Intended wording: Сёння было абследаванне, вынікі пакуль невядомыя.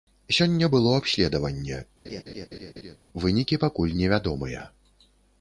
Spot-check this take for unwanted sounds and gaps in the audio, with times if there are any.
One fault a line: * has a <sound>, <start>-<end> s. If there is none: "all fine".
* has a laugh, 2.0-3.0 s